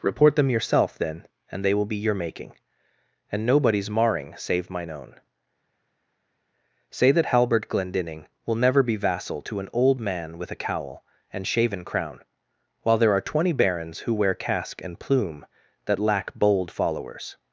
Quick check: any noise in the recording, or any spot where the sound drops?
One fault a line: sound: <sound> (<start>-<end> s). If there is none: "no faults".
no faults